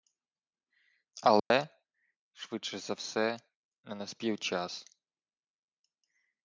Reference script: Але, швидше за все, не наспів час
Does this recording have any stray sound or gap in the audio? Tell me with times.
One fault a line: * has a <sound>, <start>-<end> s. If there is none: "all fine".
* has a dropout, 1.4-1.5 s